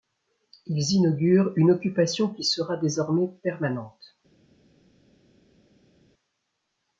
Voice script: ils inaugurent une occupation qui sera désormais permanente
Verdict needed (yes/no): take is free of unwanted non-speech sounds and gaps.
yes